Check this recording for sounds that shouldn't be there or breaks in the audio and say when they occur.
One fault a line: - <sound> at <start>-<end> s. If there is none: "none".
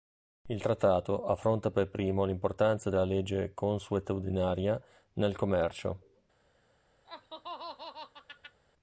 - laugh at 7.0-8.6 s